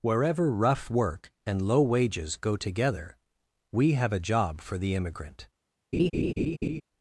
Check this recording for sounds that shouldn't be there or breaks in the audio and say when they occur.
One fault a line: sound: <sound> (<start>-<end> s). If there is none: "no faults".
sound: laugh (5.9-6.8 s)